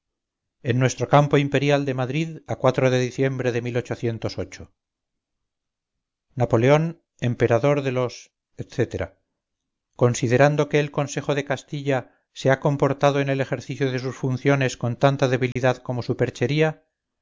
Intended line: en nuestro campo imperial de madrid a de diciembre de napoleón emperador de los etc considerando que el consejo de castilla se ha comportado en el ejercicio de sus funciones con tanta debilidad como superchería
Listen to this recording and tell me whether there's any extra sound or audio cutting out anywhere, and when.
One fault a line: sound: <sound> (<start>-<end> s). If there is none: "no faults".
sound: dropout (15.5-15.6 s)